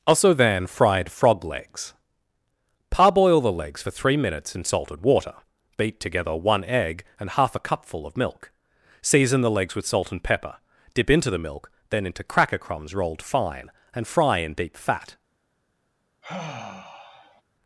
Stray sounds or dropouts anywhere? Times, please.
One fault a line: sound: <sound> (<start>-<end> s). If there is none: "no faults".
sound: sigh (16.2-17.4 s)